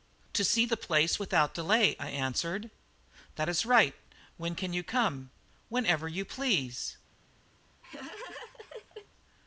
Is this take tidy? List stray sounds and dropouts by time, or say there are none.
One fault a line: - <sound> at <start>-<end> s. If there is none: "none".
- laugh at 7.8-9.1 s